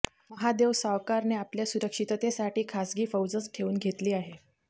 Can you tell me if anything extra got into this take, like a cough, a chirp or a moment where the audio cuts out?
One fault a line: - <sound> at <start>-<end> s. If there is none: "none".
none